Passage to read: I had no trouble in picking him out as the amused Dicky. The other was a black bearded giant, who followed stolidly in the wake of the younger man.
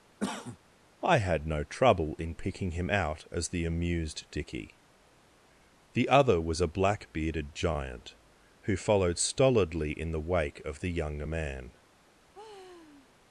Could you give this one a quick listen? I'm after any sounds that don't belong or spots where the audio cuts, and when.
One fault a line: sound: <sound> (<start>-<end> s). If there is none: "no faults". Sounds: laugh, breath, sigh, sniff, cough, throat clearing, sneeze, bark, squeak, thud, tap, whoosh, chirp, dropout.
sound: cough (0.2-0.6 s)
sound: sigh (12.3-13.1 s)